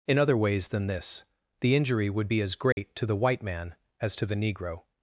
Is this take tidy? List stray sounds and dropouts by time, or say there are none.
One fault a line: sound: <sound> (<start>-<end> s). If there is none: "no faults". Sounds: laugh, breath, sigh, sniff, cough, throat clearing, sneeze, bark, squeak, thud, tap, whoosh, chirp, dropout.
sound: dropout (2.7-2.8 s)